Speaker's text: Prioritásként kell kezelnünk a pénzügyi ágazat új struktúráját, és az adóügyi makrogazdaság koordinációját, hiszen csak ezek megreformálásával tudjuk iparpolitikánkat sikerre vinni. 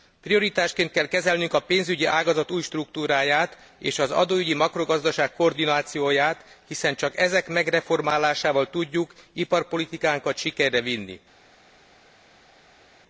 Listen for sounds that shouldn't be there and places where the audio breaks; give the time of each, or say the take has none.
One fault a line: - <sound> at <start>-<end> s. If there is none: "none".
none